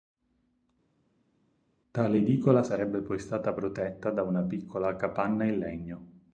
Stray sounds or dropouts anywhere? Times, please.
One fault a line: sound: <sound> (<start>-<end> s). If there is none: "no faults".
no faults